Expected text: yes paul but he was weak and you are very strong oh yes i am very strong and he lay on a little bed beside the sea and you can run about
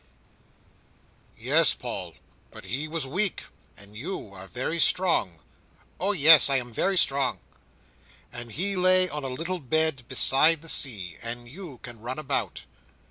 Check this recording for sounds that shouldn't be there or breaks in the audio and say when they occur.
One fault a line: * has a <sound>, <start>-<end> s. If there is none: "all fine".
all fine